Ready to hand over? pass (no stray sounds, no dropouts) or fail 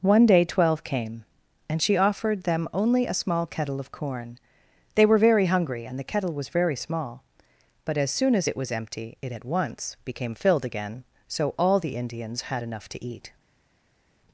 pass